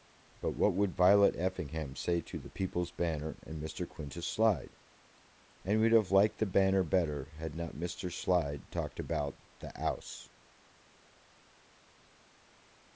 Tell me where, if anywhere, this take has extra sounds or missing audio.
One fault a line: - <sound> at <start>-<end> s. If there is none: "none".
none